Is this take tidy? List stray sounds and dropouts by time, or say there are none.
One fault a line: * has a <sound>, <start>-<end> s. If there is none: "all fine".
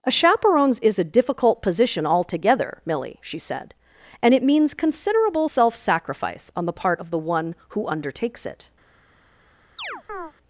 * has a chirp, 9.8-10.3 s